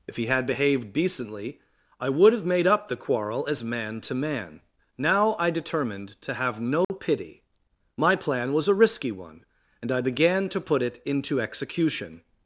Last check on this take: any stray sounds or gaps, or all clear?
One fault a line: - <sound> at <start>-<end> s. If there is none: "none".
- dropout at 6.8-6.9 s